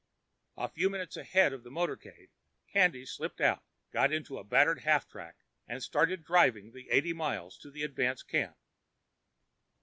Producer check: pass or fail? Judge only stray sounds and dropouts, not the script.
pass